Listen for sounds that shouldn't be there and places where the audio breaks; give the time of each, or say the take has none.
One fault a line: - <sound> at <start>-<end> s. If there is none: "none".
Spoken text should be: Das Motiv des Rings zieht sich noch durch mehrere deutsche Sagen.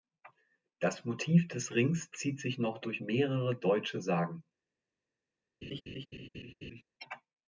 - laugh at 5.6-6.8 s